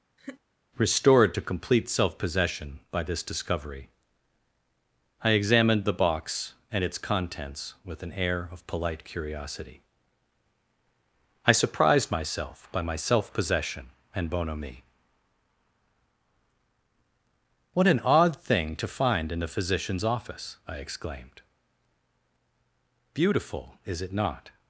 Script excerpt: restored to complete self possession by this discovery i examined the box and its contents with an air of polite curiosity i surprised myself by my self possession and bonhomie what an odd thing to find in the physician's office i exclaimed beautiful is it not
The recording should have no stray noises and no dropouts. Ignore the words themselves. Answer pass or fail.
fail